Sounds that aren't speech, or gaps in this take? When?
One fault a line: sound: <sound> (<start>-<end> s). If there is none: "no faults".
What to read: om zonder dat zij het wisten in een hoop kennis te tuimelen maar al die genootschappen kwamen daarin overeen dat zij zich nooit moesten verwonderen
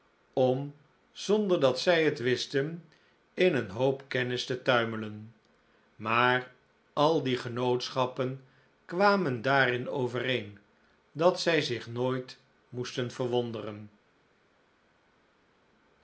no faults